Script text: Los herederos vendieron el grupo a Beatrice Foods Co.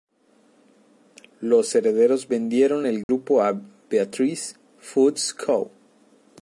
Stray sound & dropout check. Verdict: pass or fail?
fail